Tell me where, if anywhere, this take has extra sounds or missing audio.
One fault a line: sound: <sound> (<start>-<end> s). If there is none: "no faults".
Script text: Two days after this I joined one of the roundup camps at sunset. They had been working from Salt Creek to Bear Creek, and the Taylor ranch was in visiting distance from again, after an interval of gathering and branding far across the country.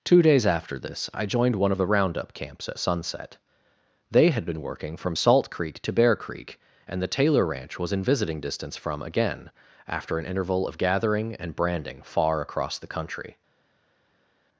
no faults